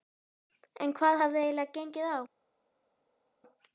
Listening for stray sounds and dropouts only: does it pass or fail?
pass